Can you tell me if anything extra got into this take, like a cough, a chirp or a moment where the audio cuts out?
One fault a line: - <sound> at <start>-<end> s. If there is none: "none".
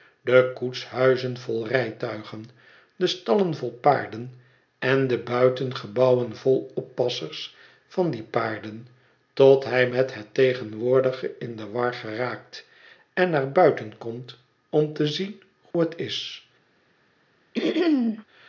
- dropout at 15.7-15.7 s
- throat clearing at 17.5-18.2 s